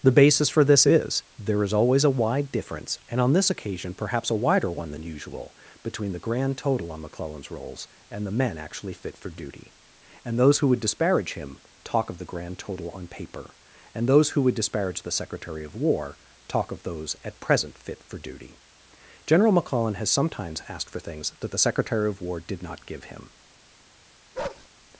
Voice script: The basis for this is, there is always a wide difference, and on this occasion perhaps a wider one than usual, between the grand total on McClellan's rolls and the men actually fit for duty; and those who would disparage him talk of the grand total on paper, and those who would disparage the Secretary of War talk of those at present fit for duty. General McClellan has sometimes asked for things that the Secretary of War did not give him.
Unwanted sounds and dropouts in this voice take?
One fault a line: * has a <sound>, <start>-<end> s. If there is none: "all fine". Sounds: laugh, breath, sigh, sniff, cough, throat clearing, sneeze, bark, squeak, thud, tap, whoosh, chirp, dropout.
* has a bark, 24.3-24.7 s